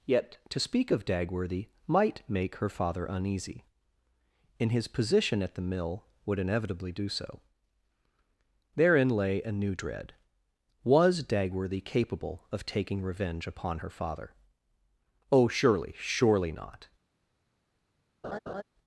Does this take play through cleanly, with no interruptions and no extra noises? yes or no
no